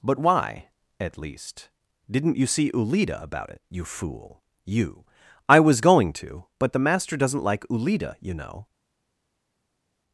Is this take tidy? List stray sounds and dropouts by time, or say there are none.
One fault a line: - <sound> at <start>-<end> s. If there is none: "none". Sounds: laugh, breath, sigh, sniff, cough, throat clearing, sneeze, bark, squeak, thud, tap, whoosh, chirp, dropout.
none